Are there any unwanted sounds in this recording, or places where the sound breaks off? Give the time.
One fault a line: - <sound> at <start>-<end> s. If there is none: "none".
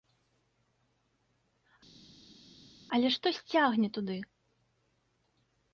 none